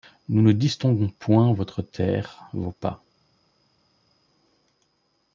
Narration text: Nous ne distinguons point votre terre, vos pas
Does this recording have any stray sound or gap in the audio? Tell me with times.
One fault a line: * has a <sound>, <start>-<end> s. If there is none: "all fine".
all fine